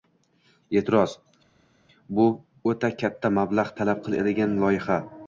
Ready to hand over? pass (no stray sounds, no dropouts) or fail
pass